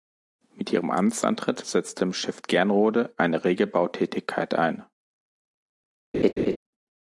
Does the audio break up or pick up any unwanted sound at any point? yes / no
yes